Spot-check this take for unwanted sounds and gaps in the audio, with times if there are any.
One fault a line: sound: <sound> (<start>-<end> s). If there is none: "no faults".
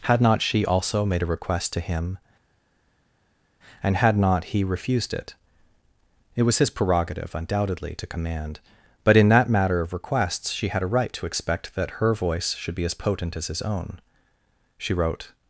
no faults